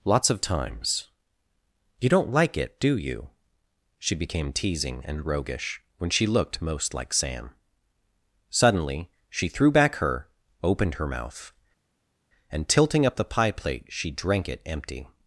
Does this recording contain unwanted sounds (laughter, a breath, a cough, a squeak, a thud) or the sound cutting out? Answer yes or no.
no